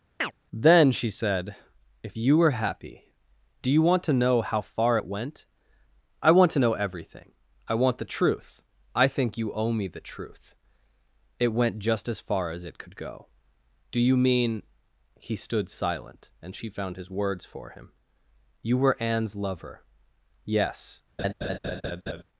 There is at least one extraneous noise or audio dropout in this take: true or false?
true